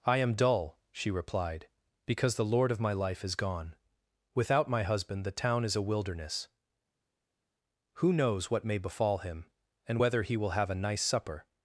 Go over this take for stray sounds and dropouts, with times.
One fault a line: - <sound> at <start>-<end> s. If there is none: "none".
none